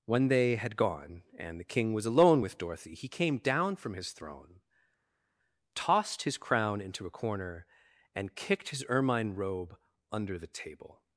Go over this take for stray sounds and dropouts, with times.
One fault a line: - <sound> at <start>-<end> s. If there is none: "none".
none